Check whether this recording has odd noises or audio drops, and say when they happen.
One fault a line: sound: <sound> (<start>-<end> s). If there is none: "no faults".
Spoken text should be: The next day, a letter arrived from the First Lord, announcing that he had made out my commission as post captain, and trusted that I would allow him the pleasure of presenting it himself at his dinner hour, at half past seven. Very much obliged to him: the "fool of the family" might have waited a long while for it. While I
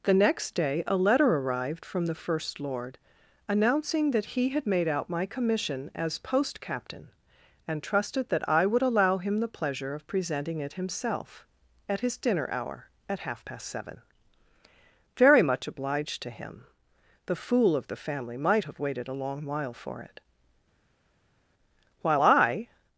no faults